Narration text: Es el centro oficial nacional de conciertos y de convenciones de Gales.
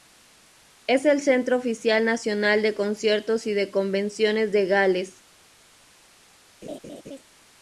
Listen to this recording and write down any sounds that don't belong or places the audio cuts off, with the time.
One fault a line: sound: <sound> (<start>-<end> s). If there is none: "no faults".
sound: laugh (6.6-7.2 s)